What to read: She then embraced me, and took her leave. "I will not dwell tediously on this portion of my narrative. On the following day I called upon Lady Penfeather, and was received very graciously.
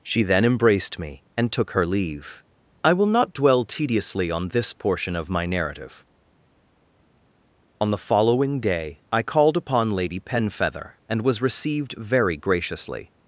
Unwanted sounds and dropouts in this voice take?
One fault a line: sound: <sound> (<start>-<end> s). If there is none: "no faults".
no faults